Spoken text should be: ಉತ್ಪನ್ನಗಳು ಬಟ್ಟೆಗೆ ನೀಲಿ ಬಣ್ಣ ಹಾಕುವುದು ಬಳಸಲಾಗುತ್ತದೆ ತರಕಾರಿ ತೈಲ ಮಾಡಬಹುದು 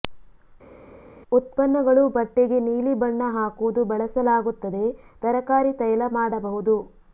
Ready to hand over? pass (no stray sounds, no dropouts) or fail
pass